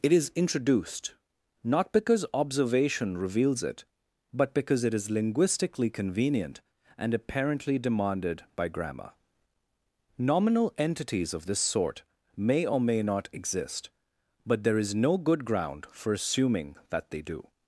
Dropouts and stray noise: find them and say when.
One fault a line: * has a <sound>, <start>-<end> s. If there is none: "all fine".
all fine